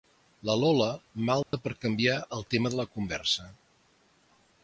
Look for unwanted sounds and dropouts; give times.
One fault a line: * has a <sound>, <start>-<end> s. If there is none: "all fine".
* has a dropout, 1.4-1.5 s